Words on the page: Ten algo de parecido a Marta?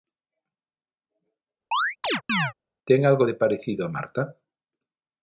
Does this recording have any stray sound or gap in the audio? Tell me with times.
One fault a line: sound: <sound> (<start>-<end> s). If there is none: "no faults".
sound: chirp (1.7-2.5 s)